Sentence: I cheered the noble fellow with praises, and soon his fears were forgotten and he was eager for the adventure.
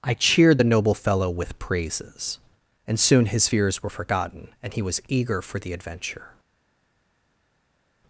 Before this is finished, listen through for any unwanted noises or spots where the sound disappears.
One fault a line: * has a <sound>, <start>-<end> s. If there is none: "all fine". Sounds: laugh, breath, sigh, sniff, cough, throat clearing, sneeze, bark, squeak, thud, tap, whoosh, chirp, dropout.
all fine